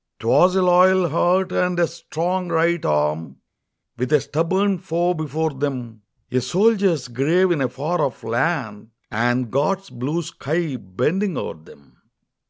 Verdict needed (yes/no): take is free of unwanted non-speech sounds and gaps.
yes